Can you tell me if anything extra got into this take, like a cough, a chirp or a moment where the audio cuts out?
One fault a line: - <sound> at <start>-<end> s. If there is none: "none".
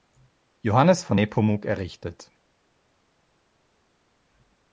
none